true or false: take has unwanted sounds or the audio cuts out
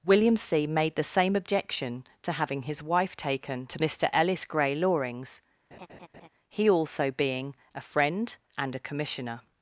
true